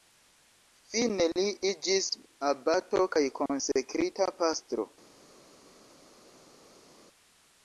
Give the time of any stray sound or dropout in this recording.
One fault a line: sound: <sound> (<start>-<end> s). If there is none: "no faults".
no faults